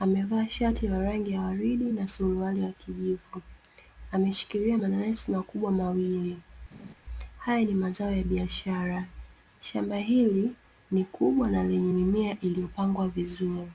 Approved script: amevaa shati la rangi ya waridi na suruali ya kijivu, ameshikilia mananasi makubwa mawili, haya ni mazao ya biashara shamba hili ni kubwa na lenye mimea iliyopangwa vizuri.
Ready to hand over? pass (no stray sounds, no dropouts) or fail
fail